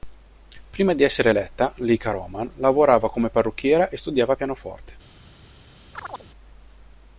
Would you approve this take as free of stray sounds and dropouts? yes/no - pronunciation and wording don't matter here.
no